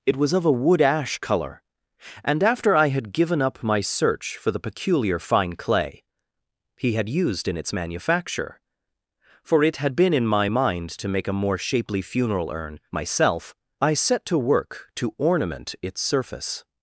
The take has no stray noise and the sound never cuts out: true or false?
true